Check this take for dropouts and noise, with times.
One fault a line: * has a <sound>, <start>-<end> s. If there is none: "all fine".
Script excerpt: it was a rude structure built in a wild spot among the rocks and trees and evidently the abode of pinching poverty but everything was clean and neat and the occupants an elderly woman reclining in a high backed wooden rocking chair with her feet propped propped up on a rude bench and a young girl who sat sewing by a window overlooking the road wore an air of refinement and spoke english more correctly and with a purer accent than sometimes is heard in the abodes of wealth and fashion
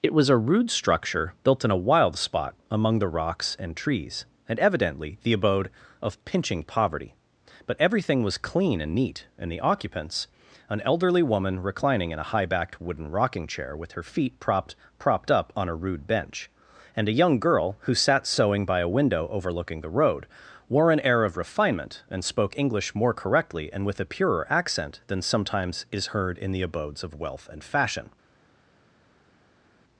all fine